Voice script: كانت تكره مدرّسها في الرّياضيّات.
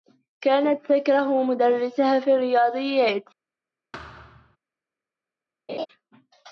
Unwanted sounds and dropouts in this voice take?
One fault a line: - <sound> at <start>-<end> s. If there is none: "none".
- thud at 3.9-4.6 s
- laugh at 5.7-5.9 s